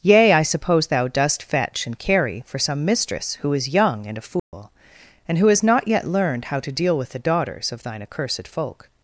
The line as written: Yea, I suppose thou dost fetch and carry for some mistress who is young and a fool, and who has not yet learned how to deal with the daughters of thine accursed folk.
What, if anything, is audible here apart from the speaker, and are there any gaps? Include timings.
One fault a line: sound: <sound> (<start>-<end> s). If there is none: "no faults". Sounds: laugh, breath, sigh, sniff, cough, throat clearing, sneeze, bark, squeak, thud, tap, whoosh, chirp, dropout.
sound: dropout (4.4-4.5 s)